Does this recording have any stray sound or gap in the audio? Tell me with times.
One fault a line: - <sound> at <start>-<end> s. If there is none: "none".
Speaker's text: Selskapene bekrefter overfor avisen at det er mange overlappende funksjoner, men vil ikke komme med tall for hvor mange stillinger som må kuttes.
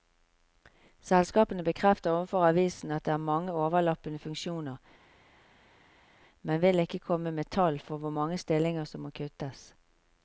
none